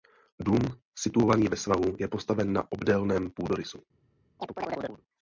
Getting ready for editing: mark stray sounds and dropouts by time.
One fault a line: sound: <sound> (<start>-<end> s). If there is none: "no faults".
sound: chirp (4.4-5.0 s)